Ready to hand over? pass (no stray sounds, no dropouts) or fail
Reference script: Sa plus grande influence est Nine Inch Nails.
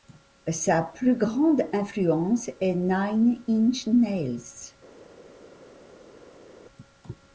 pass